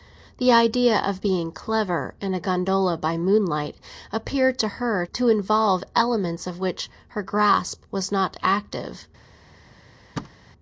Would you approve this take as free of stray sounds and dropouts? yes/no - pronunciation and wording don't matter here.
no